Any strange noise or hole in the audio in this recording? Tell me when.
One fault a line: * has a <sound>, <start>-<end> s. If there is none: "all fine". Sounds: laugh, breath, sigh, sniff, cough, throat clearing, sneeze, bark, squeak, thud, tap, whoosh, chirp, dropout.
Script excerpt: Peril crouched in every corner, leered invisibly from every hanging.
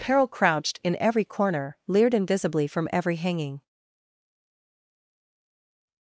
all fine